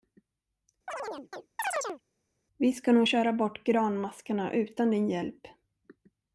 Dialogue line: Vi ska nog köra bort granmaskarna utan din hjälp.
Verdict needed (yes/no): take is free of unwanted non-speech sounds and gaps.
no